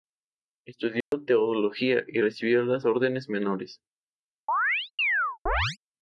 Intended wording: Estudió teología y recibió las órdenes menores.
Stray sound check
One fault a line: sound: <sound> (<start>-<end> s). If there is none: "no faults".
sound: dropout (1.0-1.1 s)
sound: chirp (4.5-5.8 s)